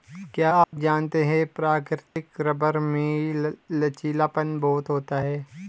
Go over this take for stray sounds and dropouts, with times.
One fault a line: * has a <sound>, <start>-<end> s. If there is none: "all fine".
* has a dropout, 0.6-0.7 s
* has a dropout, 2.1-2.2 s